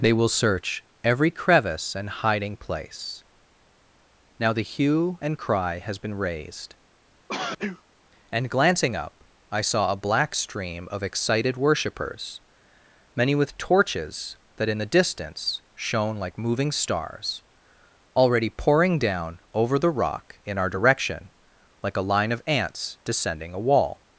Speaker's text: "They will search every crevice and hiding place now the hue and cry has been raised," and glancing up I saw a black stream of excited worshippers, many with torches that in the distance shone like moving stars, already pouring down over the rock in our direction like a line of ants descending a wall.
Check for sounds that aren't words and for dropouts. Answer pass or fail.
fail